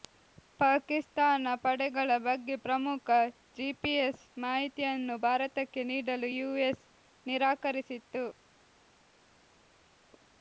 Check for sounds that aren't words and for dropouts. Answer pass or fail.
pass